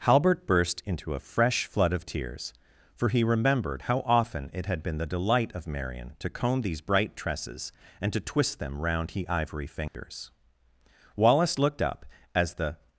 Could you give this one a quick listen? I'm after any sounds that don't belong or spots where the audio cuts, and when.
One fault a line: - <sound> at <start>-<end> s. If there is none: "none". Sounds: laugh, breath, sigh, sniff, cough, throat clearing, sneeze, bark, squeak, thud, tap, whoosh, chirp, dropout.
- dropout at 9.9-9.9 s